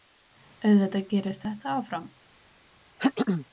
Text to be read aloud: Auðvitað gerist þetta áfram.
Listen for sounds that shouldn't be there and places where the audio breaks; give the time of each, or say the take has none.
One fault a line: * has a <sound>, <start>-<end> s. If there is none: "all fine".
* has a throat clearing, 3.0-3.5 s